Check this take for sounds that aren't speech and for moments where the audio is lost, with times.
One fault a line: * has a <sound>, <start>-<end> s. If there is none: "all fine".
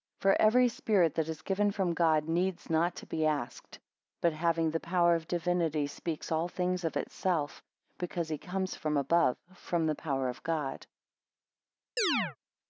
* has a chirp, 12.0-12.4 s